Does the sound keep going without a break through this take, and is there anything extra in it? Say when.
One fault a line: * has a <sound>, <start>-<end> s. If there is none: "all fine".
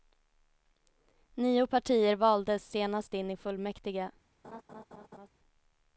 * has a laugh, 4.4-5.3 s